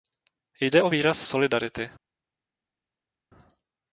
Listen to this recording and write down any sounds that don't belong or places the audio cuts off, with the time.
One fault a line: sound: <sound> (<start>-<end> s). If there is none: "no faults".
no faults